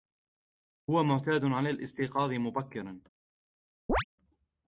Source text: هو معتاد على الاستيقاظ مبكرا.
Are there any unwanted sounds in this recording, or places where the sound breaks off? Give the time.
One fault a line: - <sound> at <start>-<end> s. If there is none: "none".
- chirp at 3.9-4.0 s